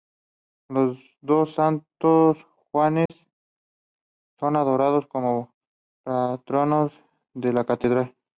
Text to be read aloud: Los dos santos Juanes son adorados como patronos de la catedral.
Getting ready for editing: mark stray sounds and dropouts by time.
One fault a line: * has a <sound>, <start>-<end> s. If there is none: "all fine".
* has a dropout, 3.1-3.1 s